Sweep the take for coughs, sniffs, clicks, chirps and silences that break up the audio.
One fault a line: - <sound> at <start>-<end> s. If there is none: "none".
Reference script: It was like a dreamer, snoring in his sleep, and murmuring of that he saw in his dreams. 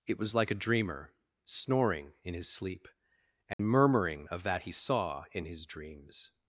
- dropout at 3.5-3.6 s